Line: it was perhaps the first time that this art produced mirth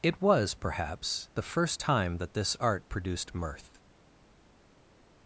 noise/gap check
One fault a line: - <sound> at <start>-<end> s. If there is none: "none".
none